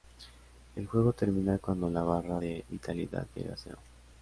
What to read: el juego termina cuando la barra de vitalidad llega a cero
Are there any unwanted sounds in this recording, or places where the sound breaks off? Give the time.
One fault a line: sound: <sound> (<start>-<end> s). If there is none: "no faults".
no faults